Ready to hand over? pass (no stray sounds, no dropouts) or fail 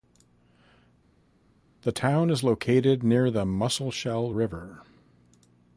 pass